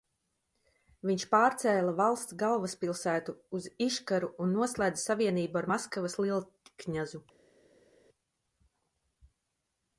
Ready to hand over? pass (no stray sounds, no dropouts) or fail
pass